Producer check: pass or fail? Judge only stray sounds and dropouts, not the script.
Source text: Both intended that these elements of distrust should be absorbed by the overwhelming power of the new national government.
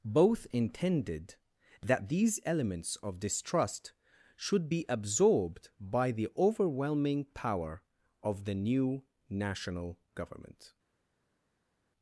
pass